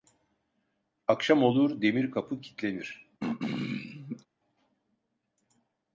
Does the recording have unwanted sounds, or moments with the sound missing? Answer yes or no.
yes